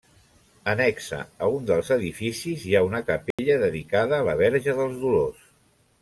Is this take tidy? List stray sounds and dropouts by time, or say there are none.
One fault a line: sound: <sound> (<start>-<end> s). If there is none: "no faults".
sound: dropout (3.3-3.4 s)